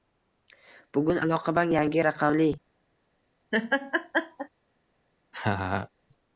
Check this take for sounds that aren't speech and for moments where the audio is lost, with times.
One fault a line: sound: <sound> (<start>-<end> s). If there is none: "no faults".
sound: laugh (3.5-4.5 s)
sound: laugh (5.3-5.9 s)